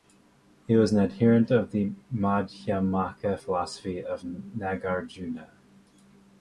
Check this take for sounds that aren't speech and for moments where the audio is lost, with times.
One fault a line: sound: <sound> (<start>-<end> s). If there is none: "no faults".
no faults